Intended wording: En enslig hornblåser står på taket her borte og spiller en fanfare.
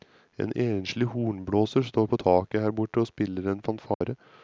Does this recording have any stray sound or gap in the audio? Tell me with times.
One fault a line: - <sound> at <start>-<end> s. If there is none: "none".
- dropout at 3.9-4.0 s